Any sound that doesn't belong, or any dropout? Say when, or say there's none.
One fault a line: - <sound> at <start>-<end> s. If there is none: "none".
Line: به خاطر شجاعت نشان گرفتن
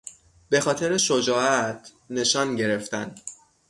none